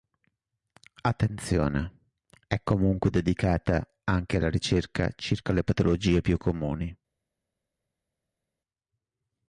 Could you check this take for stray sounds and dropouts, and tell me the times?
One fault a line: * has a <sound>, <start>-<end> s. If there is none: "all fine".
all fine